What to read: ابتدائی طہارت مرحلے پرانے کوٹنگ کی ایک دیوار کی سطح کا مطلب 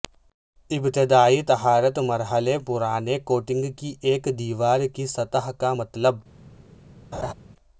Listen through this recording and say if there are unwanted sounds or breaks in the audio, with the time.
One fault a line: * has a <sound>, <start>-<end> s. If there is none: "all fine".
* has a laugh, 7.1-7.3 s